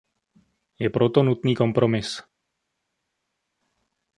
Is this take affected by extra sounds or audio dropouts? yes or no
no